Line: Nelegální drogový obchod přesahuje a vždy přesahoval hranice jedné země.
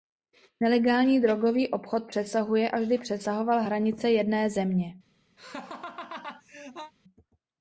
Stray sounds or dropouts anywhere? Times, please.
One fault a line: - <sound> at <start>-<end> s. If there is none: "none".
- laugh at 5.4-6.9 s